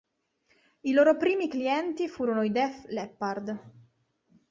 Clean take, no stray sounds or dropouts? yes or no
yes